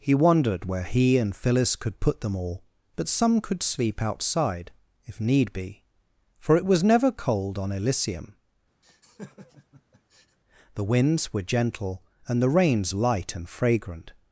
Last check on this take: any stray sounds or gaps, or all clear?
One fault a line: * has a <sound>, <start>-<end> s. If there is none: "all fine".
* has a laugh, 8.8-10.4 s